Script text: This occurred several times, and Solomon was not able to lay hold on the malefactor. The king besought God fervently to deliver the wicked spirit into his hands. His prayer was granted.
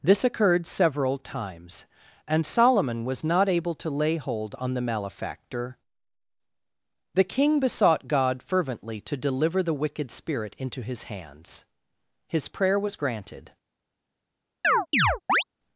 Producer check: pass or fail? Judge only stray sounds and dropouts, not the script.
fail